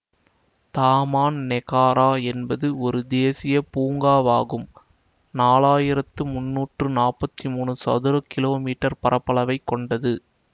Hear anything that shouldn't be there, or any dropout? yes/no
no